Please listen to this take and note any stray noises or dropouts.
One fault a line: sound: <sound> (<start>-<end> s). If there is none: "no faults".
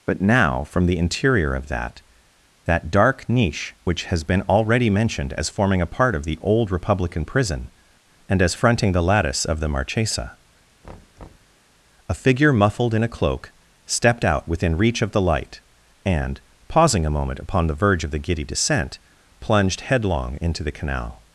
sound: thud (10.8-11.6 s)